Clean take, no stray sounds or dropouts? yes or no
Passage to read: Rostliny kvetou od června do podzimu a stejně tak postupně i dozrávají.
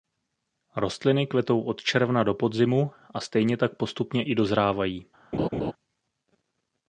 no